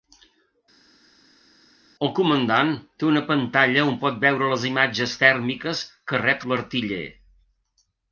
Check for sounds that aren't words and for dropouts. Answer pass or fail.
pass